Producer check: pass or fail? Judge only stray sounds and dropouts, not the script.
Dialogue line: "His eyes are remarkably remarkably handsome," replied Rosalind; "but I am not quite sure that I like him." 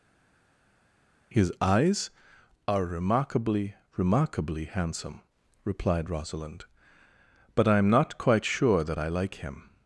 pass